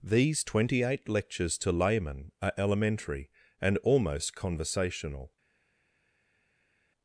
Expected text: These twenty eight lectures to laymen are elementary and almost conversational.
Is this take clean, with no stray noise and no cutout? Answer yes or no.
yes